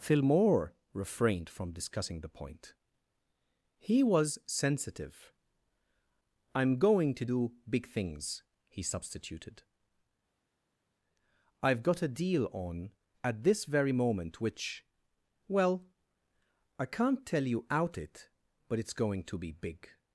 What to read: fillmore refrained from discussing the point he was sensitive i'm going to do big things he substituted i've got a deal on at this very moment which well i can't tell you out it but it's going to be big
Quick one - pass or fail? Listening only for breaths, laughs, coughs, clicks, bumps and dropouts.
pass